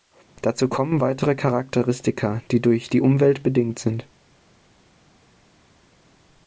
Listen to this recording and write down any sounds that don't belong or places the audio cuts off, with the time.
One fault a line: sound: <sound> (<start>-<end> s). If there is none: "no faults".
no faults